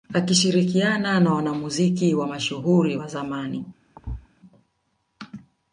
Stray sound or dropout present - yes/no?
yes